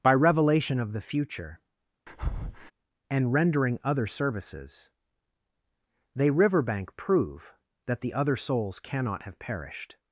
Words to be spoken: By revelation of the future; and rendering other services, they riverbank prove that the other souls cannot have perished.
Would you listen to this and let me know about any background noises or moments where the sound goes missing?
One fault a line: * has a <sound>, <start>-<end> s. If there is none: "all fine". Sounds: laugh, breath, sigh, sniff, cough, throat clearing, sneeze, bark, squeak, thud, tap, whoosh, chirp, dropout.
* has a breath, 2.1-2.7 s